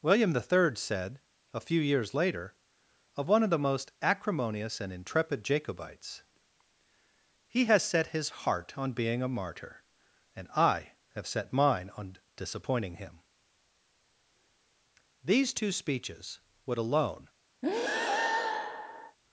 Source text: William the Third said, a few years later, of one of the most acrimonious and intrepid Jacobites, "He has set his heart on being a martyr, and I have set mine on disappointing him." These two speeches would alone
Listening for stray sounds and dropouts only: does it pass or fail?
fail